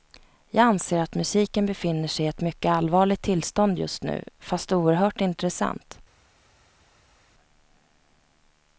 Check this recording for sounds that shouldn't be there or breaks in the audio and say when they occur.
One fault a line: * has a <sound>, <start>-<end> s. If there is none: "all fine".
all fine